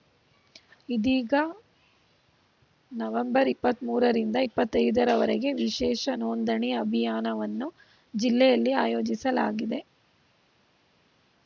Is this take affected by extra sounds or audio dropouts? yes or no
no